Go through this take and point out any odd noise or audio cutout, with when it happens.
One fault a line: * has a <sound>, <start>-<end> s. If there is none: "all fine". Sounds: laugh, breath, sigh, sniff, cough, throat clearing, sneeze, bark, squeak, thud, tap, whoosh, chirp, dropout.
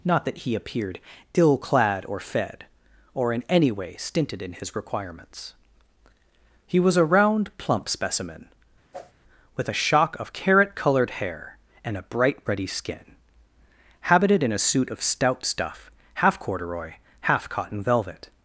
* has a whoosh, 8.9-9.1 s